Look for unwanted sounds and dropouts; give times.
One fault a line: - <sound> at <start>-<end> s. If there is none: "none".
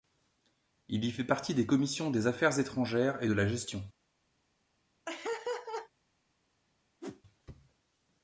- laugh at 5.1-5.9 s
- whoosh at 7.0-7.2 s